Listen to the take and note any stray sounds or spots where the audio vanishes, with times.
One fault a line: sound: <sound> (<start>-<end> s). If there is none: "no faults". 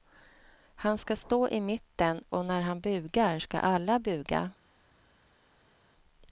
no faults